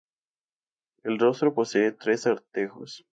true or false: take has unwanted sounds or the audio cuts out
false